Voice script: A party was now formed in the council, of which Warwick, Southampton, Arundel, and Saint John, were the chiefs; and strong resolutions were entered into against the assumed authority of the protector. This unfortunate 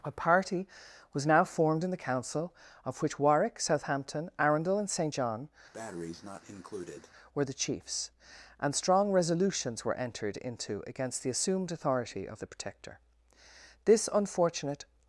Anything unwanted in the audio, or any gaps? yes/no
yes